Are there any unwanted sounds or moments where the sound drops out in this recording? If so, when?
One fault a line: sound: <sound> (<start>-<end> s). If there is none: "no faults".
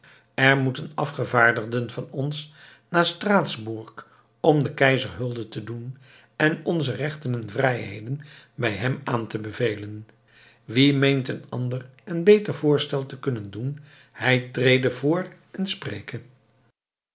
no faults